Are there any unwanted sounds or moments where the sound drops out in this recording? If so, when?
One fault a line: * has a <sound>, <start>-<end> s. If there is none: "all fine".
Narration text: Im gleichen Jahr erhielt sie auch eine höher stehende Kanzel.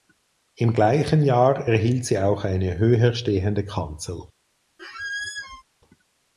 * has a squeak, 4.8-5.6 s